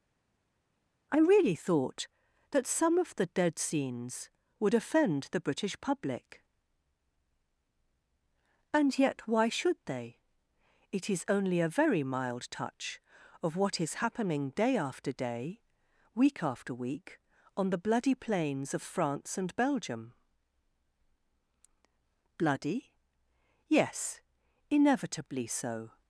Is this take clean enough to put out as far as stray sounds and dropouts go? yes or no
yes